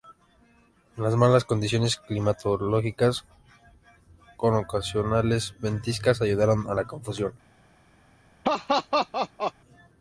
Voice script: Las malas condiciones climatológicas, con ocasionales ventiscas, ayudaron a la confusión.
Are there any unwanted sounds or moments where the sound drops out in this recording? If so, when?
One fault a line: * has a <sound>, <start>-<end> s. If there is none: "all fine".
* has a laugh, 8.4-9.5 s